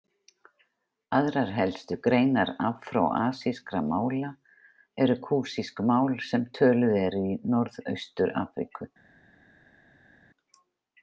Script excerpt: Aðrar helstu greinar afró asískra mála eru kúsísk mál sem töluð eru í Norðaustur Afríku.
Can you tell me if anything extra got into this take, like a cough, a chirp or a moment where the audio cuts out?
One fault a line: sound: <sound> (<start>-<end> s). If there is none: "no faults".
no faults